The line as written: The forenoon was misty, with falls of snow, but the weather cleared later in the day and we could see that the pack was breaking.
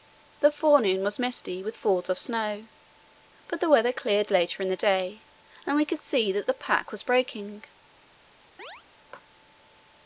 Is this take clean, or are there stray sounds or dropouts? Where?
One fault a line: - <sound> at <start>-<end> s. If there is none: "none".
- chirp at 8.6-8.8 s